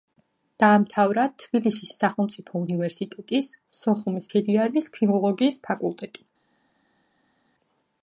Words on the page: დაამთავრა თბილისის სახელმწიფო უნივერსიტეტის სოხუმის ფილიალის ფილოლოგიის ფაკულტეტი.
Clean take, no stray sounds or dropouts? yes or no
yes